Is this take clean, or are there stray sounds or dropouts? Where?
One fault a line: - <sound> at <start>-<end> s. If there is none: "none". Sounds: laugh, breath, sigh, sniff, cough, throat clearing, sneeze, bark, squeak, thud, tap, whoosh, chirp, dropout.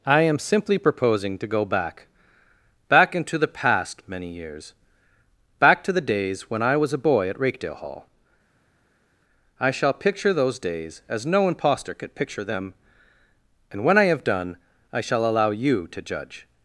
none